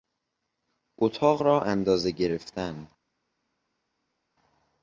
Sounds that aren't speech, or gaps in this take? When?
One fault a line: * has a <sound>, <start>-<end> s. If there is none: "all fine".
all fine